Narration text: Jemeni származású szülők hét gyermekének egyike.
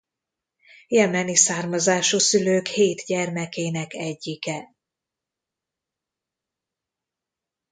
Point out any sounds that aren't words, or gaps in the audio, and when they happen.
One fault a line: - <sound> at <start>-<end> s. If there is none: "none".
none